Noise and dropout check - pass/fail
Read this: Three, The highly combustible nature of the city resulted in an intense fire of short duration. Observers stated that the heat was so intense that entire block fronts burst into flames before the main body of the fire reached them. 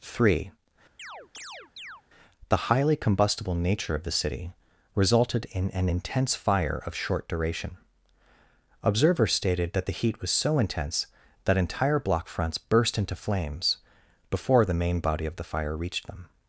fail